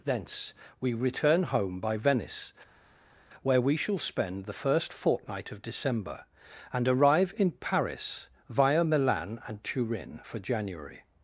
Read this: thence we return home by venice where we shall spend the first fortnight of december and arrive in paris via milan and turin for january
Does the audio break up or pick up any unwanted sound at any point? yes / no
no